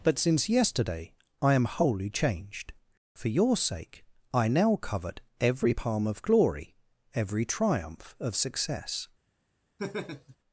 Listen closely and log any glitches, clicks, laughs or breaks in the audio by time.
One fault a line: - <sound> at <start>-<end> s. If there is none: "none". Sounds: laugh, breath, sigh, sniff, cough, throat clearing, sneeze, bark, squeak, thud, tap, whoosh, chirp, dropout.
- laugh at 9.8-10.4 s